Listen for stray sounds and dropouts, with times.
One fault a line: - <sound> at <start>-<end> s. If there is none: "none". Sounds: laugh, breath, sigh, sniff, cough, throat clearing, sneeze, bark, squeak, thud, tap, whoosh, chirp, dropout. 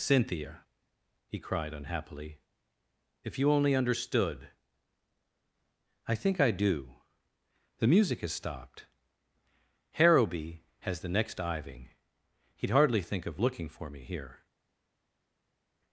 none